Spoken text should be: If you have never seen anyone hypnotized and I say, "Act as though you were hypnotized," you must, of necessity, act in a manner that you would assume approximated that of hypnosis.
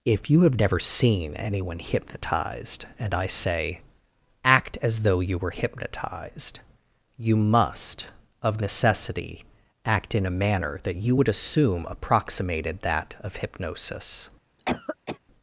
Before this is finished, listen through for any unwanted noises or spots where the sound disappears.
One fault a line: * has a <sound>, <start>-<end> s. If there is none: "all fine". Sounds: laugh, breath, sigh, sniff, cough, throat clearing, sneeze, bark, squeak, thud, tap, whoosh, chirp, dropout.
* has a cough, 14.6-15.2 s